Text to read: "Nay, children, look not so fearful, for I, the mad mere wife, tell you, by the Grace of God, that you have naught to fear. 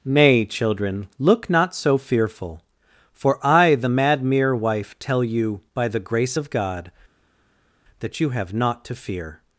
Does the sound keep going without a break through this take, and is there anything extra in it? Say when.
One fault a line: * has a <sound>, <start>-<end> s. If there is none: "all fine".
all fine